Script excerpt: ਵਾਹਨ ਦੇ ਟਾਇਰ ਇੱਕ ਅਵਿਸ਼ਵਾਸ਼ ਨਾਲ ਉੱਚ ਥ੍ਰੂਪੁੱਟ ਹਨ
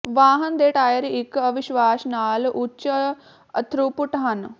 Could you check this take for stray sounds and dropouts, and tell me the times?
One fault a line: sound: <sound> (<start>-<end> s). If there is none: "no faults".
no faults